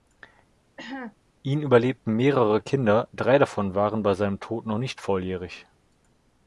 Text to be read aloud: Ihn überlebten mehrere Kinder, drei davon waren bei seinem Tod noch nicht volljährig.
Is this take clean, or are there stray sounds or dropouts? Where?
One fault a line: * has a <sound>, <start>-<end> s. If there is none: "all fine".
* has a cough, 0.8-1.2 s